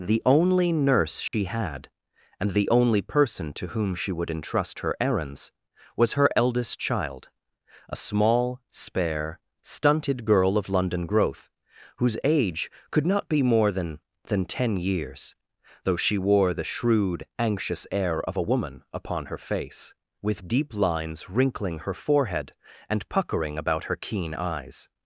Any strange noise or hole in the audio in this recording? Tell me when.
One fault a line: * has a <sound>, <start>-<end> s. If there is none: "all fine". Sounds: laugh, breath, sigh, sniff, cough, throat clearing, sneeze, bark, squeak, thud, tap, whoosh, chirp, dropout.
* has a dropout, 1.3-1.3 s